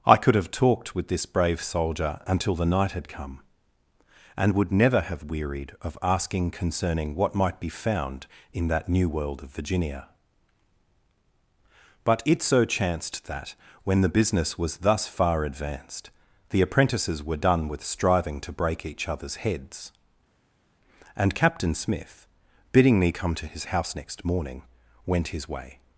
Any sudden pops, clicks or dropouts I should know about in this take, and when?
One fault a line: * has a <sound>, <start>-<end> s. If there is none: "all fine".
all fine